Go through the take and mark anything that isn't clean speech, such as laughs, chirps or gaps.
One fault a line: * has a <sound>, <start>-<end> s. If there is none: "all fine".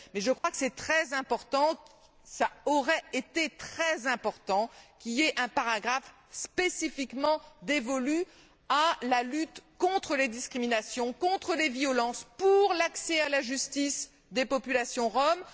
* has a dropout, 0.4-0.4 s